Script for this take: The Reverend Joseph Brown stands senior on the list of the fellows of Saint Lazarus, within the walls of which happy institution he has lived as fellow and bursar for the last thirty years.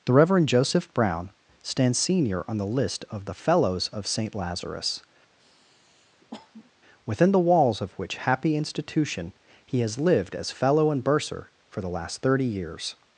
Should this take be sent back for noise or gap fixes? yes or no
yes